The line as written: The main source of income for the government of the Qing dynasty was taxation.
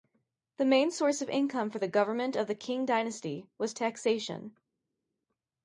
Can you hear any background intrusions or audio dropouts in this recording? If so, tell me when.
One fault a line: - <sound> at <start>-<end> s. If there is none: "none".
none